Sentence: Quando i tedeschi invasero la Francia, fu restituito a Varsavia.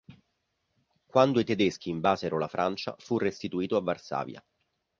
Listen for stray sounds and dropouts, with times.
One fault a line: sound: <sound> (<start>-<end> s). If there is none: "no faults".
no faults